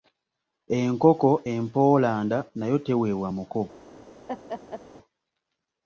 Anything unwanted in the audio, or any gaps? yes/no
yes